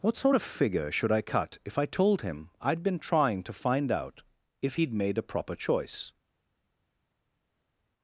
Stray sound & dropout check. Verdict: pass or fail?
pass